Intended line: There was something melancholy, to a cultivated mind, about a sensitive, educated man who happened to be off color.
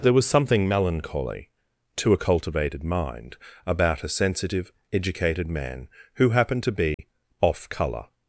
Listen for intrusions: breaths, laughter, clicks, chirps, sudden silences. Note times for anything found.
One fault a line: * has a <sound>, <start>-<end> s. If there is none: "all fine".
* has a dropout, 6.9-7.0 s